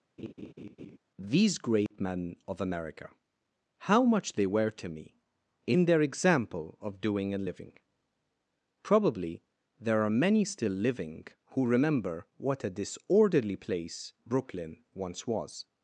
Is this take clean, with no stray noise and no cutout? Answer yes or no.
no